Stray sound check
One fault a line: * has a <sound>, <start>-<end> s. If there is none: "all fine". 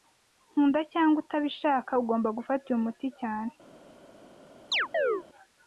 * has a chirp, 4.7-5.2 s